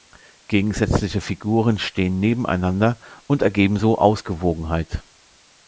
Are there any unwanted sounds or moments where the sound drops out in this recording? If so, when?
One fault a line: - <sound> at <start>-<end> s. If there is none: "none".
none